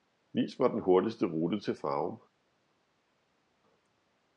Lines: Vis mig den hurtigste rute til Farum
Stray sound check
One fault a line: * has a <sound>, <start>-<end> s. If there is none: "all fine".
all fine